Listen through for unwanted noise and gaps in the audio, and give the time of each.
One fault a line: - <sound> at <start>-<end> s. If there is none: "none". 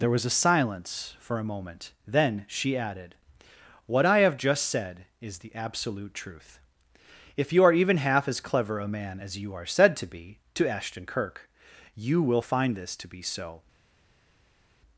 none